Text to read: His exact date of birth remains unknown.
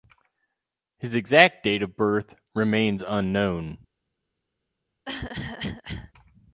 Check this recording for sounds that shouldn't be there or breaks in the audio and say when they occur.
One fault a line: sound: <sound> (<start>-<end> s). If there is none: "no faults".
sound: cough (5.1-6.1 s)